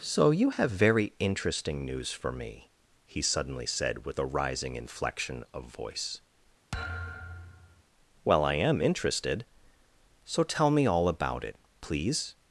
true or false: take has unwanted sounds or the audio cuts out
true